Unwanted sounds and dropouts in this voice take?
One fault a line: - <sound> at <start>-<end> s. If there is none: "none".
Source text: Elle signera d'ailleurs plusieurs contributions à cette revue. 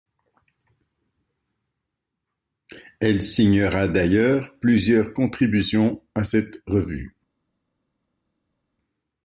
none